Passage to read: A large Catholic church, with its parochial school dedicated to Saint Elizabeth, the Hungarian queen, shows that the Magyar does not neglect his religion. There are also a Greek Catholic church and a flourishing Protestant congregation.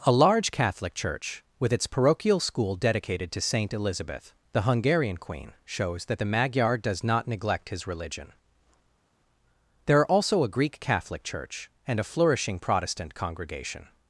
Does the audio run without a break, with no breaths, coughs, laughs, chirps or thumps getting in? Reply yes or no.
yes